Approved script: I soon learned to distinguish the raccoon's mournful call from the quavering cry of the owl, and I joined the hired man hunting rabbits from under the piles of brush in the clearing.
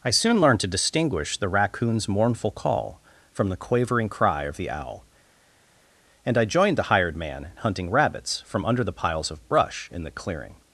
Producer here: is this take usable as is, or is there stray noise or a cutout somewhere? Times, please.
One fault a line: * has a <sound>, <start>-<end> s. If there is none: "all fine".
all fine